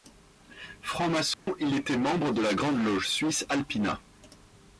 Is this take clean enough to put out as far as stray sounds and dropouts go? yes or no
no